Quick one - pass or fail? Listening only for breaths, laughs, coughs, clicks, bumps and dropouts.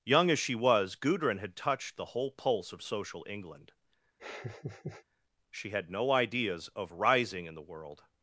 fail